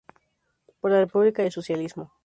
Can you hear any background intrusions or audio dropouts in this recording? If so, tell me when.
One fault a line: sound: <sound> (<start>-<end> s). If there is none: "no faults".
no faults